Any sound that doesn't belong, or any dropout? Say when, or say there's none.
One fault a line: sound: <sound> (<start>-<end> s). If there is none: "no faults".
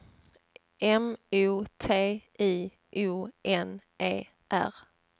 no faults